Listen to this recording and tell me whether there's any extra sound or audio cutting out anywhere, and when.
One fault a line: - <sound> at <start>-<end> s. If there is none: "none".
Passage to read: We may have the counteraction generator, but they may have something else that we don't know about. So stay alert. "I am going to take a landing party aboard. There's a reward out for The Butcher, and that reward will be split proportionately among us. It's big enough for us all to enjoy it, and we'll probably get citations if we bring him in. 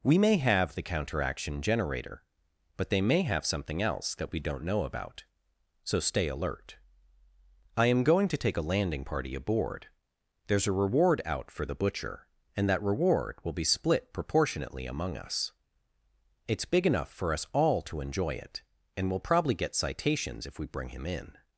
none